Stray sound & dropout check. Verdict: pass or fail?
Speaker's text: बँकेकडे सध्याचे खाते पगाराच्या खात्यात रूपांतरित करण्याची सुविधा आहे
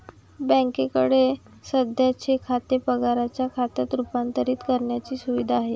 pass